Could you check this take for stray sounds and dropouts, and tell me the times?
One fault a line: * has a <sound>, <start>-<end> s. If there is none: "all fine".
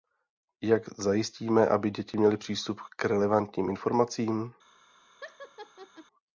* has a laugh, 5.2-6.1 s